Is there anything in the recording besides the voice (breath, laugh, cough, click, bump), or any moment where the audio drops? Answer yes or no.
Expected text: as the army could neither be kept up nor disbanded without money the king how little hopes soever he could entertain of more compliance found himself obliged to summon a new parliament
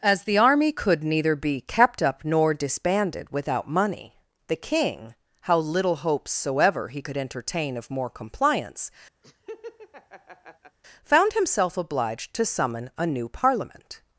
yes